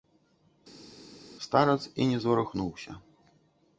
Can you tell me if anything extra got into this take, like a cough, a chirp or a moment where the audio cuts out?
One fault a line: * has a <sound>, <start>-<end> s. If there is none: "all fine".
all fine